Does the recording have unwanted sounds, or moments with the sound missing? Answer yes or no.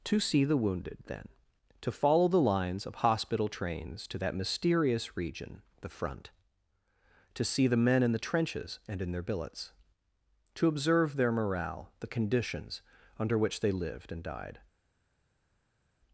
no